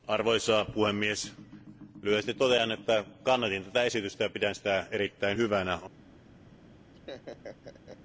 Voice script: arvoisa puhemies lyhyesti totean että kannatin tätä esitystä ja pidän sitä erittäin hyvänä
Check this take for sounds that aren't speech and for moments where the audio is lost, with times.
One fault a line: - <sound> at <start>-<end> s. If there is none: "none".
- laugh at 6.9-8.0 s